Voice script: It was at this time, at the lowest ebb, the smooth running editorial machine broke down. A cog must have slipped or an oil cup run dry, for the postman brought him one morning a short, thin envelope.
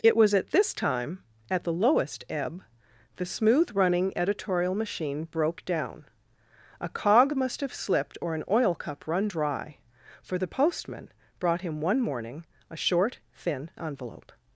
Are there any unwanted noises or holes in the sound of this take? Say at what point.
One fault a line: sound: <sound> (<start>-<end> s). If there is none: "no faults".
no faults